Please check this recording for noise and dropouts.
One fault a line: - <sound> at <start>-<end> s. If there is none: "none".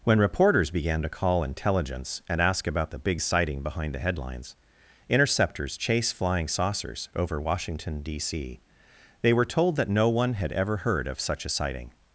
none